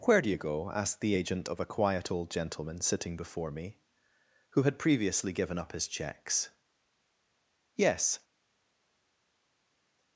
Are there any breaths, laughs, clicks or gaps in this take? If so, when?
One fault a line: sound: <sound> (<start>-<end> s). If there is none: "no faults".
no faults